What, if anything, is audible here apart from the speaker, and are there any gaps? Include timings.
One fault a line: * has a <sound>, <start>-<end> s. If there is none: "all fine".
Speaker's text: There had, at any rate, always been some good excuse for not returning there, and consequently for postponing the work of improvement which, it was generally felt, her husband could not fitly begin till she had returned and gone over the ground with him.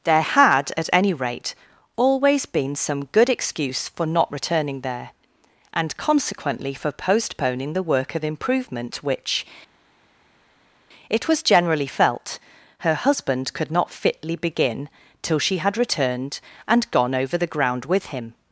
all fine